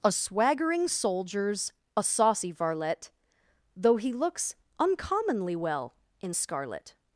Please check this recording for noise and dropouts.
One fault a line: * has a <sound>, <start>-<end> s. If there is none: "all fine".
all fine